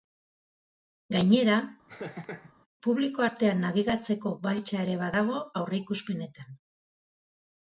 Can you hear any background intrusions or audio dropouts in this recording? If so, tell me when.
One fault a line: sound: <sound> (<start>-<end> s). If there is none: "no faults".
sound: laugh (1.9-2.5 s)